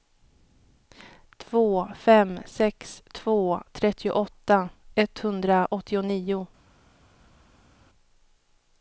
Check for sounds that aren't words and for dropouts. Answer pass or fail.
pass